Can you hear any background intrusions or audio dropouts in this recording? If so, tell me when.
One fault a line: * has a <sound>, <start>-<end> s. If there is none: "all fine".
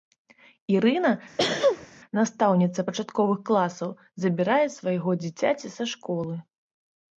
* has a sneeze, 1.4-1.9 s